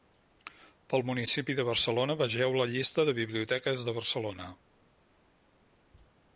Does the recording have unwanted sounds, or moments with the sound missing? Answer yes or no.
no